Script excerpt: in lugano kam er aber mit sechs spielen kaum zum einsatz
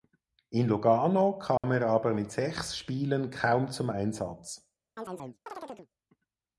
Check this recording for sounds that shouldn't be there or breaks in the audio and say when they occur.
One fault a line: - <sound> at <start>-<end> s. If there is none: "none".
- dropout at 1.6-1.6 s
- chirp at 5.0-5.9 s